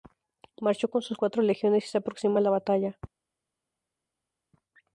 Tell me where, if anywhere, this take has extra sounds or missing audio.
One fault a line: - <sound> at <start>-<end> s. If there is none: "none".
none